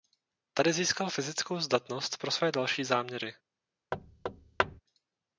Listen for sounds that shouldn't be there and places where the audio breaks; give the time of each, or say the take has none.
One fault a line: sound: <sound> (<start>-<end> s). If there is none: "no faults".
sound: thud (3.9-4.8 s)